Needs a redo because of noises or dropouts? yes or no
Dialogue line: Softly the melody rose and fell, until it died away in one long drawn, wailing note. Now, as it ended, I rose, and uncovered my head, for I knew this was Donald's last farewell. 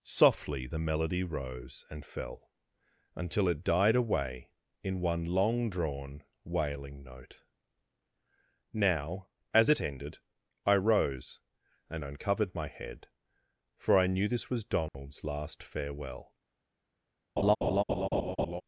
yes